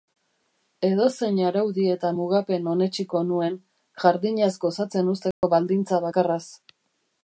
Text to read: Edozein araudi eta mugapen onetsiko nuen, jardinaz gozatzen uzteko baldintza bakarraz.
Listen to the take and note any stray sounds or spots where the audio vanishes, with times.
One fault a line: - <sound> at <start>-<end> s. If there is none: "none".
- dropout at 5.3-5.4 s